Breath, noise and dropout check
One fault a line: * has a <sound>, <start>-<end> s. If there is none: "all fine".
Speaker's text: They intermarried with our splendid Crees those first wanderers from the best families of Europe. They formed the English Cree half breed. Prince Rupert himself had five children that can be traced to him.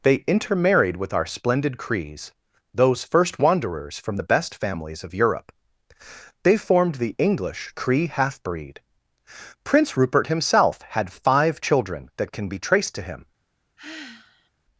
* has a sigh, 13.8-14.5 s